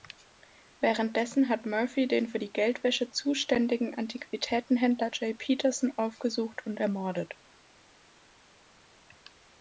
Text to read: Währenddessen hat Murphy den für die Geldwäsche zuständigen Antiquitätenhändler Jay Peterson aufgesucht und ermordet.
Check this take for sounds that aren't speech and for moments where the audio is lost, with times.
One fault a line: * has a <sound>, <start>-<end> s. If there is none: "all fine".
all fine